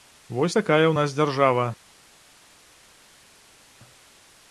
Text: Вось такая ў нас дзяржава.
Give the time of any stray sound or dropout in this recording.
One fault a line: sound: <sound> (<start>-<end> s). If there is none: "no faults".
no faults